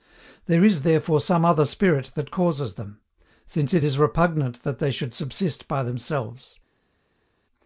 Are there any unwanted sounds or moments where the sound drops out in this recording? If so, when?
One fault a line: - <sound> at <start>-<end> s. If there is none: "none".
none